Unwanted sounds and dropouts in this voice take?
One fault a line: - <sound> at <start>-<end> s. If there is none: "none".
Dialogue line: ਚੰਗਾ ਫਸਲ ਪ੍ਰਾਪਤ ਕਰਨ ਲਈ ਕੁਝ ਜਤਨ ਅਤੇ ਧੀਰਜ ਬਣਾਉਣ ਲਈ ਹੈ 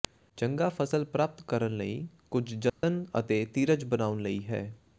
- dropout at 2.7-2.8 s